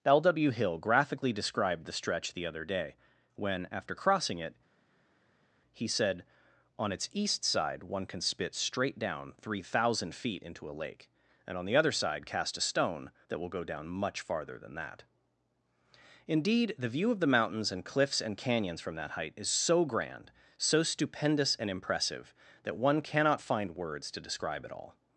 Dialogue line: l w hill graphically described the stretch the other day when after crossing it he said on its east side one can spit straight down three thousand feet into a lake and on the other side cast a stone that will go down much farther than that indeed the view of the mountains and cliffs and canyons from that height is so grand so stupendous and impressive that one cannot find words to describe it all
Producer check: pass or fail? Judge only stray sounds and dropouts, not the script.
pass